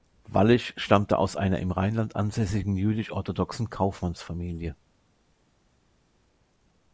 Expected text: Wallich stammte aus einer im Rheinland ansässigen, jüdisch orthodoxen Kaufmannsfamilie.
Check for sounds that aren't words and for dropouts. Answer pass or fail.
pass